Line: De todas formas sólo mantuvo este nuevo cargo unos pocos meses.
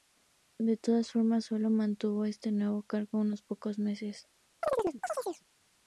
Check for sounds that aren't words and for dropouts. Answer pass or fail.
fail